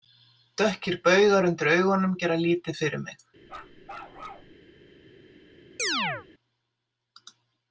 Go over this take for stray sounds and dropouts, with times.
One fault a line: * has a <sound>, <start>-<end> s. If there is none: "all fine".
* has a bark, 3.4-4.5 s
* has a chirp, 5.8-6.3 s